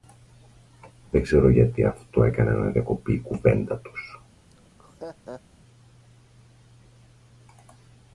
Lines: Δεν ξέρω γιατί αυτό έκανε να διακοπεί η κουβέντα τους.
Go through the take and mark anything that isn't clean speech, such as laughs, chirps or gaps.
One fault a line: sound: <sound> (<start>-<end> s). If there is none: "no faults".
sound: laugh (4.5-5.4 s)